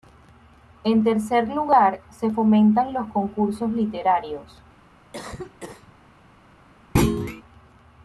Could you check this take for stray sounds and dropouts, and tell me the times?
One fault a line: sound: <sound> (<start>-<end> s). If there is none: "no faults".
sound: cough (5.1-5.9 s)
sound: thud (7.0-7.4 s)